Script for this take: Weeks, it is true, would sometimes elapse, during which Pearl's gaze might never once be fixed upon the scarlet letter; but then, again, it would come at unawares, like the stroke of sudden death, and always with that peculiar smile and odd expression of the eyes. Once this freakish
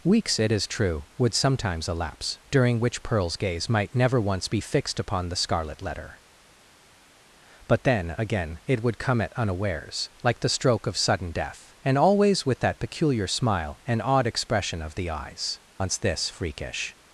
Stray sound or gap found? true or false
false